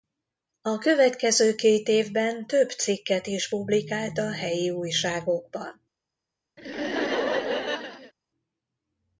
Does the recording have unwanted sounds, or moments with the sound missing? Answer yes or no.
yes